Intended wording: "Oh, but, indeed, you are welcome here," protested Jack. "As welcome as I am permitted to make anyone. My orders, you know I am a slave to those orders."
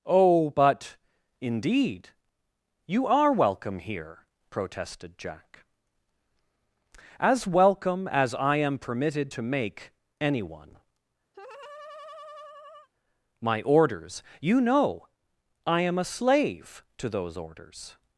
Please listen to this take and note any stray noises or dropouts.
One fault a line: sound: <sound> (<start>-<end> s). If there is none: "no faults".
sound: laugh (11.3-12.9 s)